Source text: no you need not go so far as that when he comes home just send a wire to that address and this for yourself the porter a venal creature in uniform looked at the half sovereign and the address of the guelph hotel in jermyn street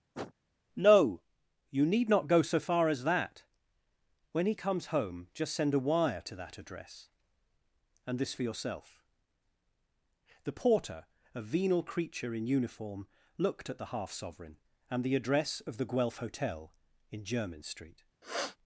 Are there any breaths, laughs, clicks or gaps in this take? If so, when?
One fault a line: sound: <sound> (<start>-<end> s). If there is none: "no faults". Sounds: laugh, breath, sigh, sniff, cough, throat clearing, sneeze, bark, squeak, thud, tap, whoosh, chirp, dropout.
sound: sniff (0.1-0.3 s)
sound: sniff (18.2-18.6 s)